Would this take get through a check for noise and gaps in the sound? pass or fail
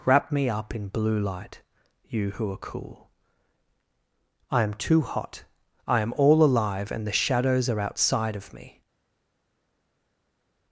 pass